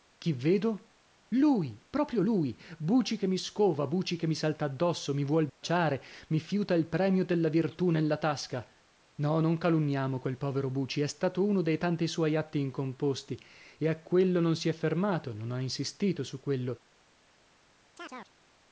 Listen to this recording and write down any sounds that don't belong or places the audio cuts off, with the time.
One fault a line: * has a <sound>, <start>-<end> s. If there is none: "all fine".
* has a dropout, 5.5-5.6 s
* has a chirp, 18.0-18.3 s